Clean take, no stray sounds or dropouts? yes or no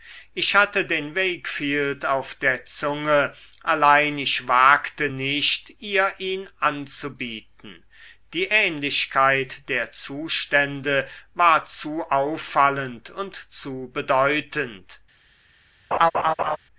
no